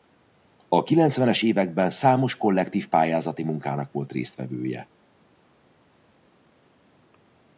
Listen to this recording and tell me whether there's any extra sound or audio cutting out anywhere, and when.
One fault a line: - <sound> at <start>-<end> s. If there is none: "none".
none